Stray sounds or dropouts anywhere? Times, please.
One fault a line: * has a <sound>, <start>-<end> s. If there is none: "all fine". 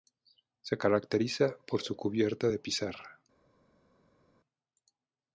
all fine